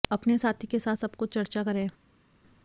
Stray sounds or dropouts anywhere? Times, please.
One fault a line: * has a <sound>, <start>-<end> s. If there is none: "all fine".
all fine